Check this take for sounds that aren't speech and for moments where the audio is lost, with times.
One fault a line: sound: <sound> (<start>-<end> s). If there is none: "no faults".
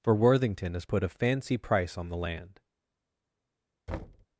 sound: thud (3.9-4.3 s)